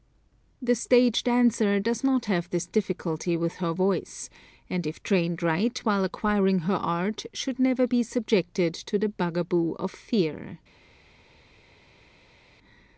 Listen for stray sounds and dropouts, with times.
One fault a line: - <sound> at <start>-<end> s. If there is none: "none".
none